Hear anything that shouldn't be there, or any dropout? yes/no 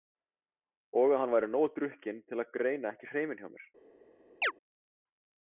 yes